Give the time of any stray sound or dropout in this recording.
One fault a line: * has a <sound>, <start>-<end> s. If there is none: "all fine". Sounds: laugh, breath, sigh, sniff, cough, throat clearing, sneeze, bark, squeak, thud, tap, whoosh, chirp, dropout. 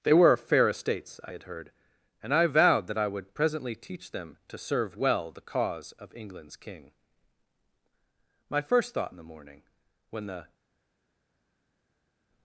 all fine